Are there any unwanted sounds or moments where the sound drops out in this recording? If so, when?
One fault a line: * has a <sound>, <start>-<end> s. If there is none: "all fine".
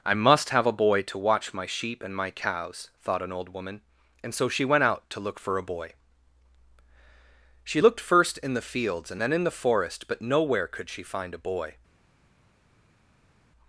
all fine